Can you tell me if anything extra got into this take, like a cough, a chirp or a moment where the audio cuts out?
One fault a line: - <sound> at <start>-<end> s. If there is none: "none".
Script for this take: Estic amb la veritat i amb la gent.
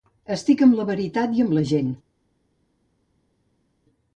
none